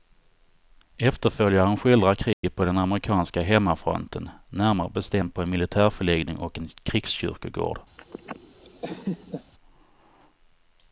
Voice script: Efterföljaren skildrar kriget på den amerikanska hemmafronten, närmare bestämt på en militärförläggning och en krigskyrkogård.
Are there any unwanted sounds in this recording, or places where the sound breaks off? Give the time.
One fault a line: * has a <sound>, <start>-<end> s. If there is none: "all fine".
* has a dropout, 2.3-2.4 s
* has a laugh, 8.0-9.5 s